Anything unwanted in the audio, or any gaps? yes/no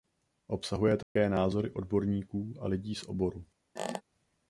yes